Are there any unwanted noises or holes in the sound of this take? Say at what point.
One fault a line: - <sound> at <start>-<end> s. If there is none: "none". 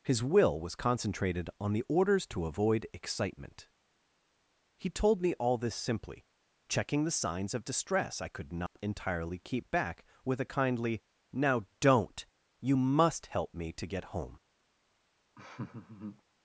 - dropout at 8.7-8.8 s
- laugh at 15.3-16.2 s